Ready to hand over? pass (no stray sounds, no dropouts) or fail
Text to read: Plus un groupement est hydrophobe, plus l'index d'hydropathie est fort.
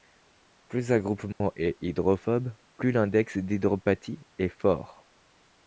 fail